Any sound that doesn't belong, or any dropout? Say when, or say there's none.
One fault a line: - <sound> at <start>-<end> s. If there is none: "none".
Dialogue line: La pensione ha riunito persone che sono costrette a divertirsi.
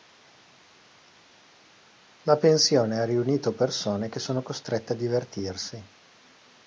none